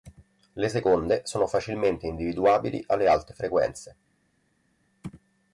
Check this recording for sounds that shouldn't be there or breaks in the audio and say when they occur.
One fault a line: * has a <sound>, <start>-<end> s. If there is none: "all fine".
all fine